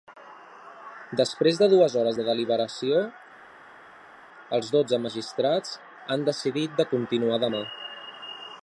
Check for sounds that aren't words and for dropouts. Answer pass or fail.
pass